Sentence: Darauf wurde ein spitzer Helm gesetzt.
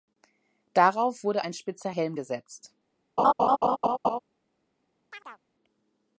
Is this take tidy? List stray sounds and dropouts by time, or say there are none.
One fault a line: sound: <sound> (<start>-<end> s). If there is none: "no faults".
sound: laugh (3.2-4.2 s)
sound: chirp (5.1-5.4 s)